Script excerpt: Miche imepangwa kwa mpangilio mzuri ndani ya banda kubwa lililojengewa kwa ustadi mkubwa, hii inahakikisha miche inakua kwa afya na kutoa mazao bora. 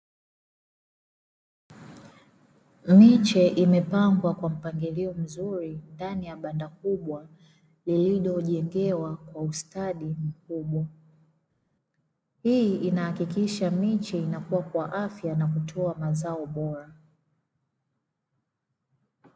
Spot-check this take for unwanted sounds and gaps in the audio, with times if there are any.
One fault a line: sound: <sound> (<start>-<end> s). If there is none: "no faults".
no faults